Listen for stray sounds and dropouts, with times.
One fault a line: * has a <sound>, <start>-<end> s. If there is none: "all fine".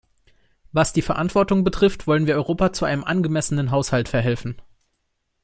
all fine